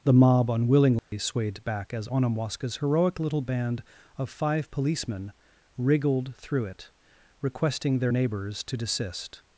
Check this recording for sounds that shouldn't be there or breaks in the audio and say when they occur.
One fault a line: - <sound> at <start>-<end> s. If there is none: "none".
- dropout at 1.0-1.1 s